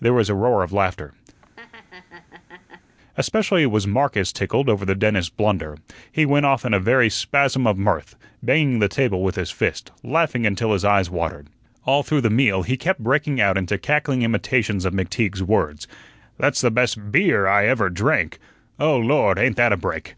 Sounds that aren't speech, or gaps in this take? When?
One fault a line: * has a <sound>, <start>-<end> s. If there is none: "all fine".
* has a laugh, 1.4-3.0 s